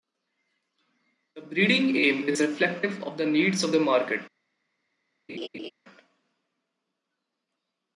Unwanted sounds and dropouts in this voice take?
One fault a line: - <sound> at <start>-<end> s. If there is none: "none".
- laugh at 5.3-5.7 s